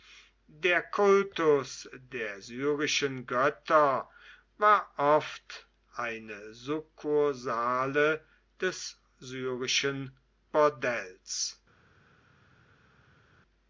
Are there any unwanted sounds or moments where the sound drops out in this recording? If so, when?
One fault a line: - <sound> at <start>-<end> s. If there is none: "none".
none